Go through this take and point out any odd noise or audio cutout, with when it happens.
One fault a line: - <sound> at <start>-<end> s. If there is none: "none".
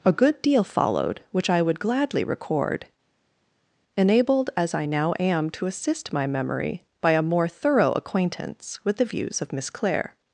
none